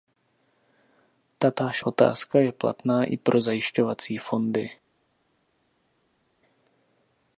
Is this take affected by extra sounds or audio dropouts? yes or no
no